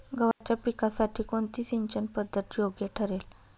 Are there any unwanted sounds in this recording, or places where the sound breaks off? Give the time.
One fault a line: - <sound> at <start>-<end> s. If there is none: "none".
- dropout at 0.3-0.4 s